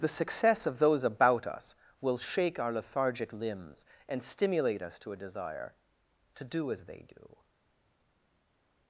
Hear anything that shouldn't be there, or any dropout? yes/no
no